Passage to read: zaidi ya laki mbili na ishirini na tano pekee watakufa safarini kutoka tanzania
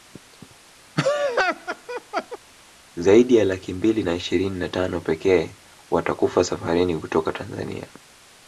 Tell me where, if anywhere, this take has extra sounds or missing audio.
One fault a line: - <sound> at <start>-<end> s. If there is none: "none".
- laugh at 1.0-2.4 s